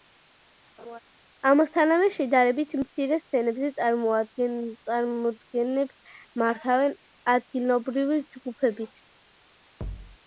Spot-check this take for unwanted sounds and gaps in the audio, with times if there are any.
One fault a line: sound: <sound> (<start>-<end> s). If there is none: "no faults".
sound: laugh (0.8-1.0 s)
sound: thud (9.8-10.2 s)